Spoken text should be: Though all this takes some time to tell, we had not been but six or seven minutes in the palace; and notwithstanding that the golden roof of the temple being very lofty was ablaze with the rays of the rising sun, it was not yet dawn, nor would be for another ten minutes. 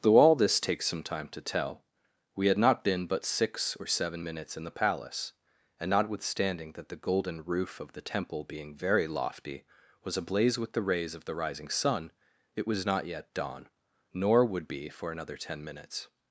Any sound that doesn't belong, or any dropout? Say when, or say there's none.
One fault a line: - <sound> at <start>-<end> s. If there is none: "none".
none